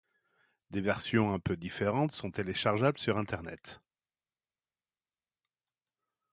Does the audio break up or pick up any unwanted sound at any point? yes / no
no